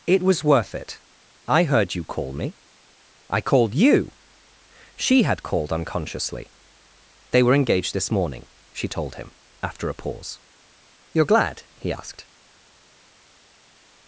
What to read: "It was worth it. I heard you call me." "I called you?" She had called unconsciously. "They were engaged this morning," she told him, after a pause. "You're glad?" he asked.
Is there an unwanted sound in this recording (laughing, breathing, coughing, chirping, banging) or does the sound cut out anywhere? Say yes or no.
no